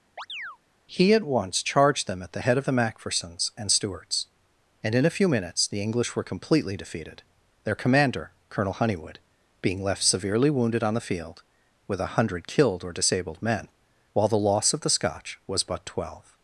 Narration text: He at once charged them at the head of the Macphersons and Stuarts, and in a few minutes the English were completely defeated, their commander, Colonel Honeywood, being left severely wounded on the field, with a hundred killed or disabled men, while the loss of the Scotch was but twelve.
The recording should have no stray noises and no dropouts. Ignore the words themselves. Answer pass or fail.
fail